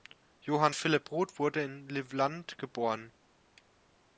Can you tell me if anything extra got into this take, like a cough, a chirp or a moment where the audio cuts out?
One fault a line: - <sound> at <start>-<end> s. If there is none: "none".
none